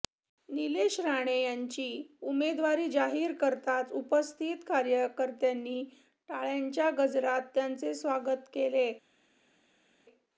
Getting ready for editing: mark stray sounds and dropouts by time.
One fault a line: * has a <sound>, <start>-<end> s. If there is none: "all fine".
all fine